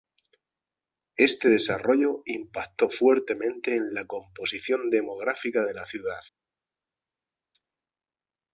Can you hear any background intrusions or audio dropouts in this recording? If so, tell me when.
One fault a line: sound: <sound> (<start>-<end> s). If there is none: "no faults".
no faults